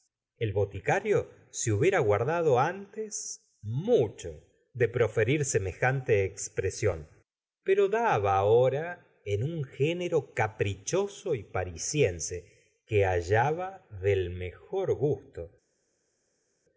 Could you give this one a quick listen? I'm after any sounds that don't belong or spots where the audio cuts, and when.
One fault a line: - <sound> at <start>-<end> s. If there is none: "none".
none